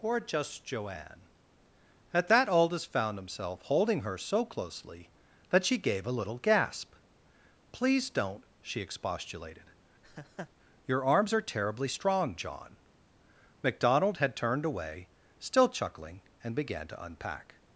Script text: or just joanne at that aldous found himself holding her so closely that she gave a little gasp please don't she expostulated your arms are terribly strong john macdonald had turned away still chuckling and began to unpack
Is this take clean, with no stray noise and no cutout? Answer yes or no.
no